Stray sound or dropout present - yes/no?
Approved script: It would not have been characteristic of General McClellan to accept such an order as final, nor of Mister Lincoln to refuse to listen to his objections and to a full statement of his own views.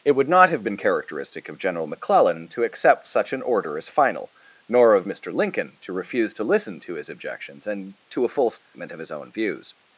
yes